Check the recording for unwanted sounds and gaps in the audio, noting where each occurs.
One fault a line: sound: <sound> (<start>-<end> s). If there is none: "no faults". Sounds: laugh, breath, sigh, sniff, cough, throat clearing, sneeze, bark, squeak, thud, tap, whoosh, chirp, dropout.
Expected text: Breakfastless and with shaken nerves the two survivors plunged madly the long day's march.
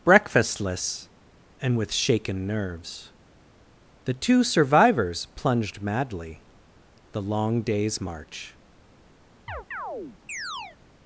sound: chirp (9.5-10.8 s)